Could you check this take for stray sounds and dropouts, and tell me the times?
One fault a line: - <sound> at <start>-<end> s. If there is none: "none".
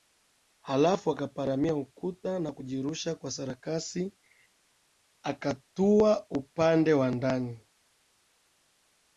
none